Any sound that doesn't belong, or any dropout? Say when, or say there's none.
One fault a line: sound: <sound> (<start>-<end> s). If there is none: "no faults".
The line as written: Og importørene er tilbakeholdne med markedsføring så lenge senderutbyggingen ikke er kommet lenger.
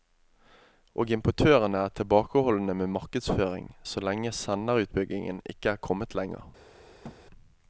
sound: thud (7.0-7.2 s)